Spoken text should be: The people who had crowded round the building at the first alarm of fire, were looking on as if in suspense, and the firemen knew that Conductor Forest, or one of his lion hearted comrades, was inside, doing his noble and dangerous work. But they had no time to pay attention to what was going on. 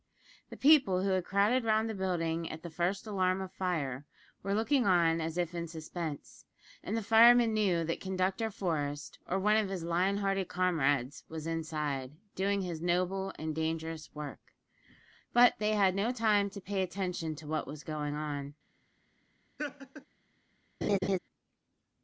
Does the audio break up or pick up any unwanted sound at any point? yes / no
yes